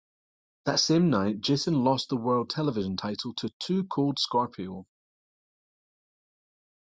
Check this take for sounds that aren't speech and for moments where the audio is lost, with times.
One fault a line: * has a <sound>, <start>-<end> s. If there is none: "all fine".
all fine